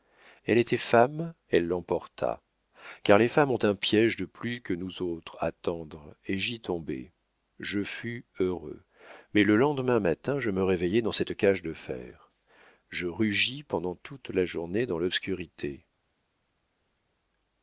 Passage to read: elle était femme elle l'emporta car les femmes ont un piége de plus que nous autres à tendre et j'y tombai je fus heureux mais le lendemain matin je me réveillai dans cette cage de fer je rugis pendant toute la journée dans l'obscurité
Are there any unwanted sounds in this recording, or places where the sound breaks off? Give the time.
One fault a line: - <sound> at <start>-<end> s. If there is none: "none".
none